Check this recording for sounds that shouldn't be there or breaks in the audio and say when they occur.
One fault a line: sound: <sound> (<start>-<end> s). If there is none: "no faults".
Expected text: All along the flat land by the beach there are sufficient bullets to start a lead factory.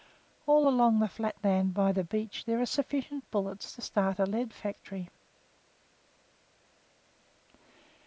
no faults